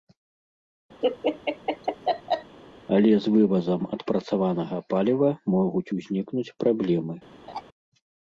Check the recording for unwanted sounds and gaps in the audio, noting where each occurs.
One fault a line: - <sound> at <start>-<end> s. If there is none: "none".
- laugh at 1.0-2.6 s
- laugh at 7.5-7.6 s